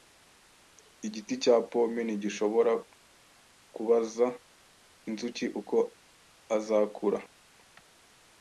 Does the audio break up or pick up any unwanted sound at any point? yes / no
no